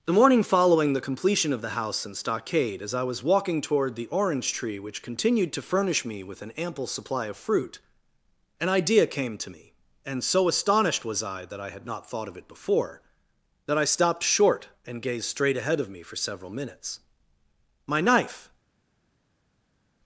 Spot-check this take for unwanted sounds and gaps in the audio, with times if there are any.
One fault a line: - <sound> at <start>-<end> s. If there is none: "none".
none